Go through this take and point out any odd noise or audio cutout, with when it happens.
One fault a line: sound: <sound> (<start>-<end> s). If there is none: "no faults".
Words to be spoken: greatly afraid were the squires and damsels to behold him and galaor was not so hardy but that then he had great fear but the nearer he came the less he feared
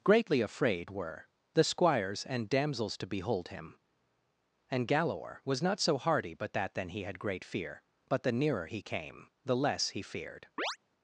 sound: chirp (10.6-10.8 s)